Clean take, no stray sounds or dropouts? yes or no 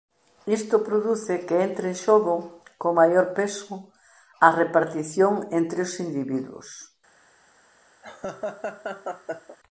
no